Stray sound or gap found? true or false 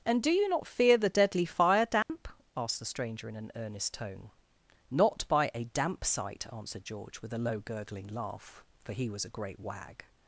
true